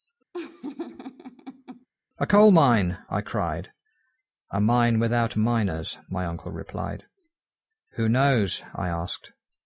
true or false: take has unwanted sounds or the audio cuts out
true